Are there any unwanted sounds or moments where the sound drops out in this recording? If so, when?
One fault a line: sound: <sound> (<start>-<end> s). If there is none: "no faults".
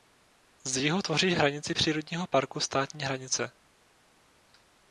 no faults